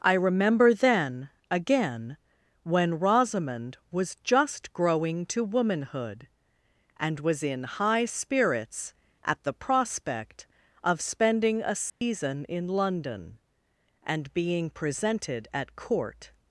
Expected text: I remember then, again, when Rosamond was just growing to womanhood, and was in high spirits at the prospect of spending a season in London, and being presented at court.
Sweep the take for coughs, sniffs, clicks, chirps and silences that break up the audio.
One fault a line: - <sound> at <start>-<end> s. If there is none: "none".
- dropout at 11.9-12.0 s